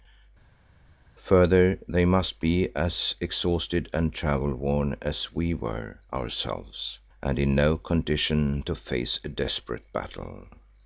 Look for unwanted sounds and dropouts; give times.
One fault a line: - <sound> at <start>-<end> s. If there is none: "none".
none